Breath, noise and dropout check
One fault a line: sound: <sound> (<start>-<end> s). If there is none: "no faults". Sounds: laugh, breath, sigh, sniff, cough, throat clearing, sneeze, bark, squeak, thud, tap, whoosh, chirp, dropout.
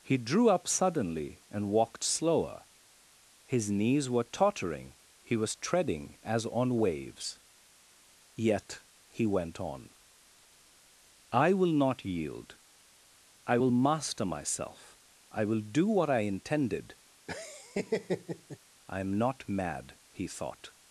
sound: laugh (17.3-18.6 s)